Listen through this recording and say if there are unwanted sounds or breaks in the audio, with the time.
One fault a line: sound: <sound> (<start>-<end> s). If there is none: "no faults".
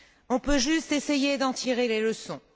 no faults